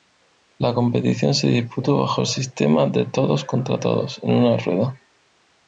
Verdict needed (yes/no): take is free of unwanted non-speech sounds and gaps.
yes